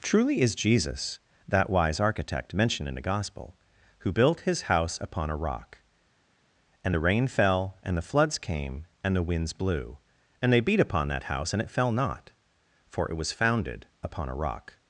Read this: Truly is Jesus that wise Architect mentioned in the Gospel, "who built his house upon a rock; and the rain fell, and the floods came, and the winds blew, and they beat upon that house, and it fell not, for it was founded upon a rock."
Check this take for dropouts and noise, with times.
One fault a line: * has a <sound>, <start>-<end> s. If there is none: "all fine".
all fine